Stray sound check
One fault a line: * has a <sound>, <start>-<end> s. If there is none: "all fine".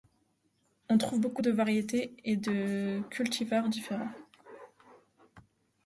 all fine